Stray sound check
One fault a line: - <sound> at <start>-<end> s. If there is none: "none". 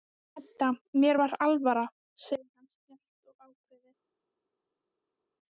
none